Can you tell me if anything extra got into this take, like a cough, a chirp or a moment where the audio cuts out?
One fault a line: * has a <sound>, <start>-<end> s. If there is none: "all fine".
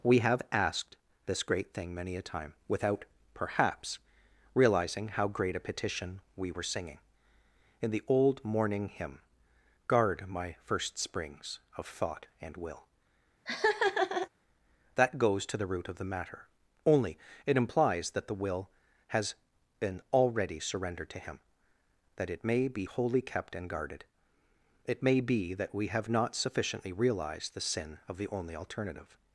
* has a laugh, 13.5-14.3 s